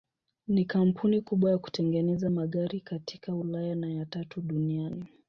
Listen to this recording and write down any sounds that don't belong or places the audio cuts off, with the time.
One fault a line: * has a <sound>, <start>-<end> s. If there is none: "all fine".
all fine